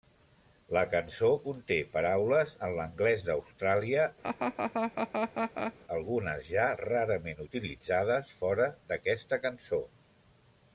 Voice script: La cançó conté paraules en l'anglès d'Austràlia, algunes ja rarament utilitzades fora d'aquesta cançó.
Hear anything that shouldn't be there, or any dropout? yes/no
yes